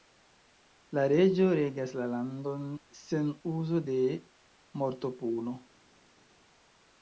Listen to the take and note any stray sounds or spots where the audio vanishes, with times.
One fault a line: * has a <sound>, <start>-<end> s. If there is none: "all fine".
all fine